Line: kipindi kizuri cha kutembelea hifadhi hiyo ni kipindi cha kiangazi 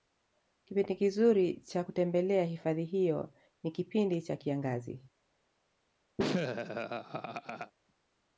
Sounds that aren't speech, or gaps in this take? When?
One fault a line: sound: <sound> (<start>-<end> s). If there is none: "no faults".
sound: laugh (6.2-7.7 s)